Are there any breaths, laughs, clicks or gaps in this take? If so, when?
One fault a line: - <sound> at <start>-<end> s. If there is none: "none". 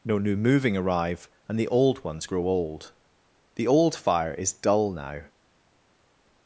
none